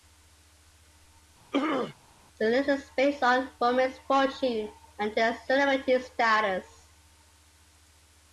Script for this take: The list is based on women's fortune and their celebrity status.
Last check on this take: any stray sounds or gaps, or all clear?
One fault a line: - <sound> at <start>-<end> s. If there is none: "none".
- throat clearing at 1.5-1.9 s